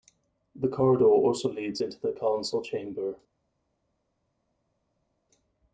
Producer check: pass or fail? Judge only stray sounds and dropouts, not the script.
pass